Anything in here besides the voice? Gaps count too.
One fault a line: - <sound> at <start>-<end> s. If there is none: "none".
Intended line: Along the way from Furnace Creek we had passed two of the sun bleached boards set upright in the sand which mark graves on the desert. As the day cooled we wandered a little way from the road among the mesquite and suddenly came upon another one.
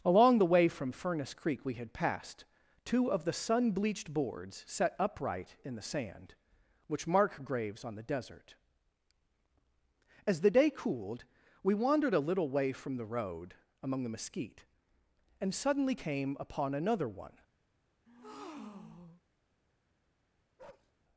- breath at 18.1-19.2 s
- bark at 20.6-20.9 s